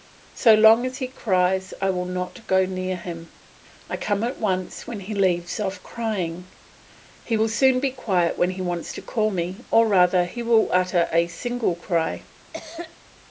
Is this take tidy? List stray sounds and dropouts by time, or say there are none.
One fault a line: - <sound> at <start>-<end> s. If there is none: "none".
- cough at 12.5-13.0 s